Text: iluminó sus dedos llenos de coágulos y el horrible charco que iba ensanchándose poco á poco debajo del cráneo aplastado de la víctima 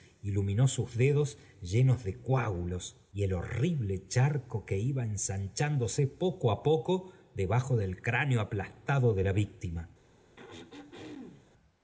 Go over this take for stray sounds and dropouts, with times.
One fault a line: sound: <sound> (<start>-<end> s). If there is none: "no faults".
sound: throat clearing (10.4-11.5 s)